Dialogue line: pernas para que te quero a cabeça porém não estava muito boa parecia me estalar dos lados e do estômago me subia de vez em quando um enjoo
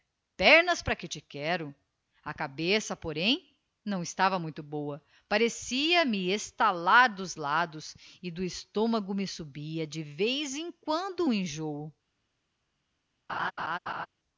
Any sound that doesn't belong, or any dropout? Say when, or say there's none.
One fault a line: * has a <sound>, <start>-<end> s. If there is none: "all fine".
* has a laugh, 13.3-14.1 s